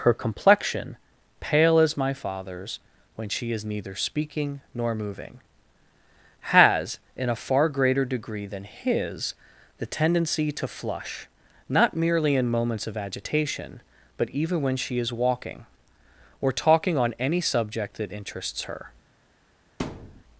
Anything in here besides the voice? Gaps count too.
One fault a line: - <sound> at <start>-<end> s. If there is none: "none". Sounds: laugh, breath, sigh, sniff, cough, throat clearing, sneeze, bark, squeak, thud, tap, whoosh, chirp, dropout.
- thud at 19.8-20.2 s